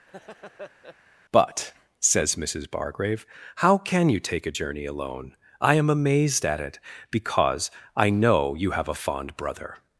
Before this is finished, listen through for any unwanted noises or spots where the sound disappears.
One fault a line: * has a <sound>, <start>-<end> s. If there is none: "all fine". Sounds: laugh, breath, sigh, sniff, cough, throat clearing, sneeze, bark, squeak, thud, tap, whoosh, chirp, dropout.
* has a laugh, 0.1-1.0 s